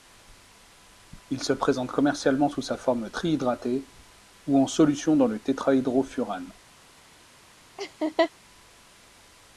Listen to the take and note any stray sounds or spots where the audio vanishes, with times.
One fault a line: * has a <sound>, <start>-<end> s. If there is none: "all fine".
* has a laugh, 7.8-8.3 s